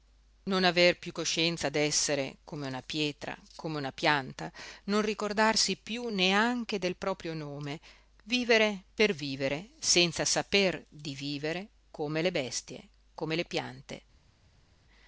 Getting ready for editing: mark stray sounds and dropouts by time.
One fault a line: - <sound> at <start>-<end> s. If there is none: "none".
none